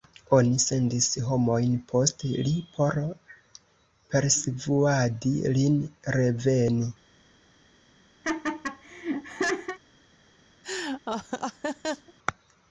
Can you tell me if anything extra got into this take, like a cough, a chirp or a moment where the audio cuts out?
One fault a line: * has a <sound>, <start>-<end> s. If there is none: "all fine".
* has a laugh, 8.2-9.8 s
* has a laugh, 10.6-12.1 s